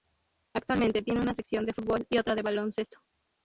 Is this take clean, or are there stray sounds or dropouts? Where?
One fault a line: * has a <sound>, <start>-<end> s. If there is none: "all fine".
all fine